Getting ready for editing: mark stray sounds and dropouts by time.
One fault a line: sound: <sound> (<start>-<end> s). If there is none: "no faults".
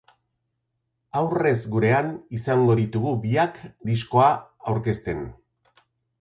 no faults